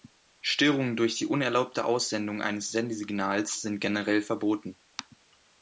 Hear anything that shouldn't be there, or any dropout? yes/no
no